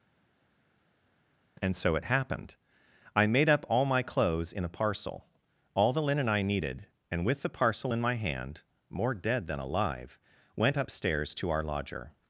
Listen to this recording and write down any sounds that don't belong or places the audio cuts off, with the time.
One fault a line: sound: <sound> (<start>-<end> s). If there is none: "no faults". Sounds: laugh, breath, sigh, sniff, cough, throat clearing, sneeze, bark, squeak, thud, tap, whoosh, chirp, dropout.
no faults